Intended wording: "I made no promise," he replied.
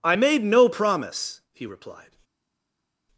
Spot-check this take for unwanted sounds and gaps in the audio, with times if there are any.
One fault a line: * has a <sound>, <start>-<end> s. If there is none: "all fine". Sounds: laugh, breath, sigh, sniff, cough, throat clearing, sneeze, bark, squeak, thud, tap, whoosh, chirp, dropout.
all fine